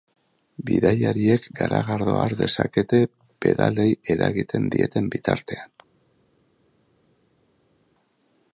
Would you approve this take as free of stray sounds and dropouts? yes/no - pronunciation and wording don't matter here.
yes